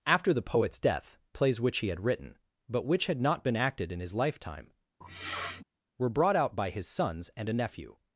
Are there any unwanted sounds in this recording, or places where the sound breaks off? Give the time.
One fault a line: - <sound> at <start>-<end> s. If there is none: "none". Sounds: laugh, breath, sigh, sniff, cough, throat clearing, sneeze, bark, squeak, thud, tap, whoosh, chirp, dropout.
- sniff at 5.0-5.6 s